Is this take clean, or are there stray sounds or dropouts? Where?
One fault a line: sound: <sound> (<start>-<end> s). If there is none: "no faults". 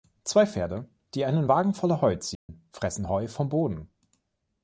sound: dropout (2.3-2.5 s)